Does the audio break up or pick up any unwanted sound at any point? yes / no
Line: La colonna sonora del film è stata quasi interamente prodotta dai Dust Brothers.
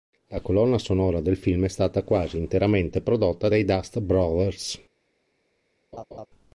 yes